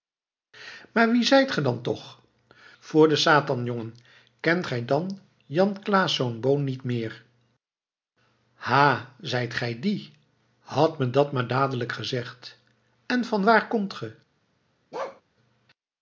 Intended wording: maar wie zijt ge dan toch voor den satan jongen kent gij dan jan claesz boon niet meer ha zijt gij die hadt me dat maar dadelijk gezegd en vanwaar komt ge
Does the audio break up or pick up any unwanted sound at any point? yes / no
yes